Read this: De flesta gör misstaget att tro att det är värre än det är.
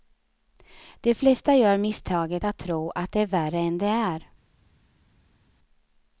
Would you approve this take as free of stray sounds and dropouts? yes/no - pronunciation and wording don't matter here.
yes